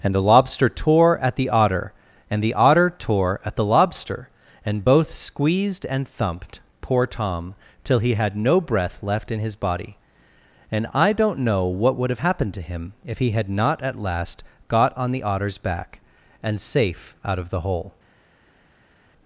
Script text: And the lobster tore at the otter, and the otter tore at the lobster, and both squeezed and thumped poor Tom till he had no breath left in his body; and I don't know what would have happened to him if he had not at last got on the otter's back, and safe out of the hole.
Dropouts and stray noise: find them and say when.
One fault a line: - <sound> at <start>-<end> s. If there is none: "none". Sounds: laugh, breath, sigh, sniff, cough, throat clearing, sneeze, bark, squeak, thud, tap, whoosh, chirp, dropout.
none